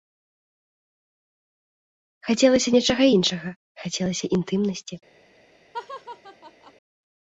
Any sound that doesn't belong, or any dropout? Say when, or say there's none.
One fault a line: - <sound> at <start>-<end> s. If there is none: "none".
- laugh at 5.7-6.7 s